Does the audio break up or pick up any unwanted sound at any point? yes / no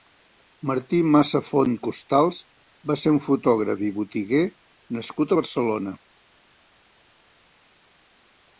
no